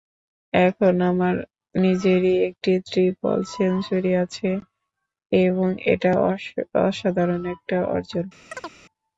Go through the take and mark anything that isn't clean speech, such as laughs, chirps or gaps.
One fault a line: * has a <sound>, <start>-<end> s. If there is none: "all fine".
* has a chirp, 8.5-8.8 s